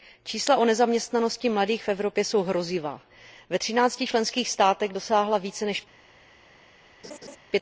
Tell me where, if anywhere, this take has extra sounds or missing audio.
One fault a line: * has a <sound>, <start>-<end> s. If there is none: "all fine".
* has a laugh, 7.0-7.4 s